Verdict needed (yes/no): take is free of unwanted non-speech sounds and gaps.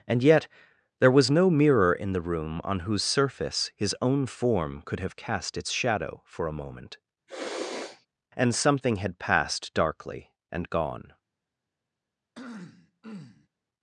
no